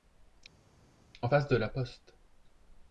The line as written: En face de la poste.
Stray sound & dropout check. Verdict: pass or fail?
pass